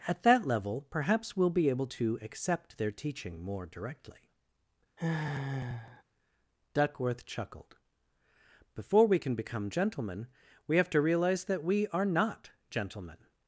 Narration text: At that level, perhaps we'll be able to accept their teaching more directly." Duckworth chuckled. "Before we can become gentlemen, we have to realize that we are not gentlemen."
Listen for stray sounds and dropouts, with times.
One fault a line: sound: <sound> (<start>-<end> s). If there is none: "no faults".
sound: sigh (5.0-6.0 s)